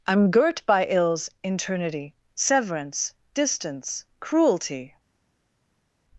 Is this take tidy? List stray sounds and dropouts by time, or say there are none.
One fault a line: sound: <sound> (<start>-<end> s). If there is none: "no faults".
no faults